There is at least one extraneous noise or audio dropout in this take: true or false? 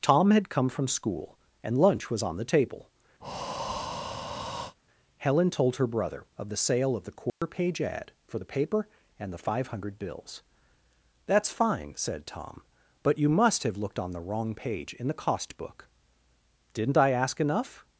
true